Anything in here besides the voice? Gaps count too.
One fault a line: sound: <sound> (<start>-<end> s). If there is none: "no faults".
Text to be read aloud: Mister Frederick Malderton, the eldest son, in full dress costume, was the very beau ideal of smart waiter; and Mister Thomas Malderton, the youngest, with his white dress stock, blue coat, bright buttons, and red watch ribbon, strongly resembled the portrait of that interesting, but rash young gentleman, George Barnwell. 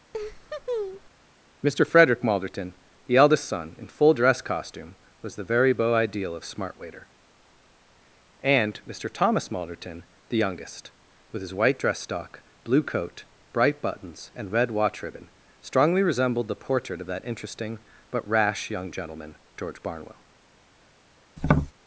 sound: laugh (0.1-1.1 s)
sound: tap (21.4-21.7 s)